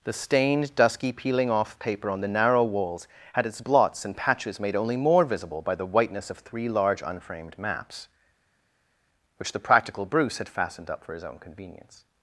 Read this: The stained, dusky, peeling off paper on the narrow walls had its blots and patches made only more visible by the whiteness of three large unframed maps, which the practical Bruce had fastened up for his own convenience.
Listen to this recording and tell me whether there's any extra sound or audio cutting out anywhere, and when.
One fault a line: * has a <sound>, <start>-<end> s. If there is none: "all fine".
all fine